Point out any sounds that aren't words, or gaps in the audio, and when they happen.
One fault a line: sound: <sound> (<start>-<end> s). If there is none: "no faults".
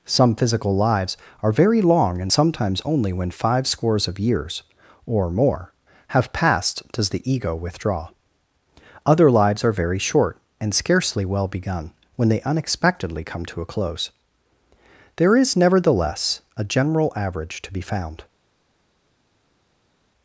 no faults